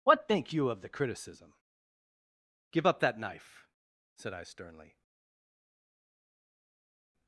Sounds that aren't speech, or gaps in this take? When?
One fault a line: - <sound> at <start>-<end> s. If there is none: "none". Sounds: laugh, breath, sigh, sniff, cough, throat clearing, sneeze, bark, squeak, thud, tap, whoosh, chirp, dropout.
none